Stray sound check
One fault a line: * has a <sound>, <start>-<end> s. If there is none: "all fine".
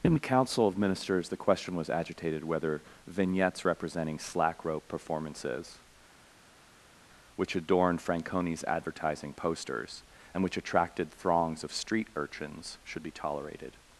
all fine